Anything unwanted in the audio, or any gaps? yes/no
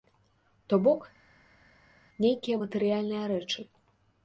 no